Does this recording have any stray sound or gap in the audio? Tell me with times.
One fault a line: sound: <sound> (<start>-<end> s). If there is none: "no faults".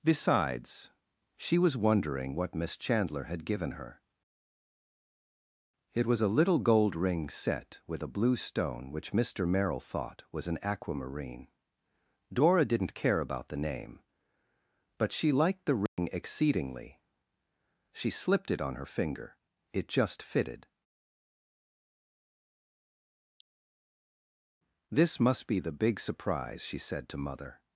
sound: dropout (15.9-16.0 s)